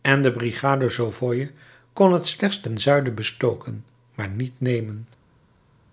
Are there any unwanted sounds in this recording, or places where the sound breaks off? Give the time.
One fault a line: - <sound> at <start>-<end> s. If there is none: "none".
none